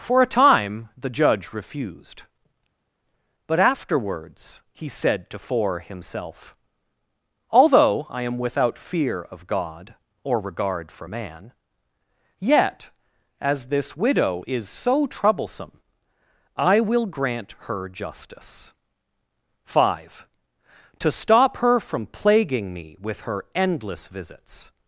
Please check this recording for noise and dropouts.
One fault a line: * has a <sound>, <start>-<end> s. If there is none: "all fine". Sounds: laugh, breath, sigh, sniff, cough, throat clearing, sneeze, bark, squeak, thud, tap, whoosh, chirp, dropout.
all fine